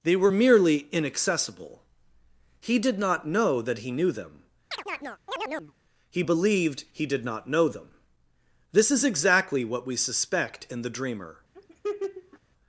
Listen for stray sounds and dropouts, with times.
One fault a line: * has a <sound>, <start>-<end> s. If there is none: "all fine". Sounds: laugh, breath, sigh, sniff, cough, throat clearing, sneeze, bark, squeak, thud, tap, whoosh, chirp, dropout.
* has a chirp, 4.7-5.7 s
* has a laugh, 11.5-12.4 s